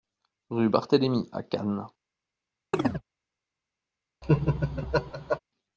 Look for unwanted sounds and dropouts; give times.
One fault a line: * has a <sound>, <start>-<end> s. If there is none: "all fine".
* has a chirp, 2.7-3.0 s
* has a laugh, 4.2-5.4 s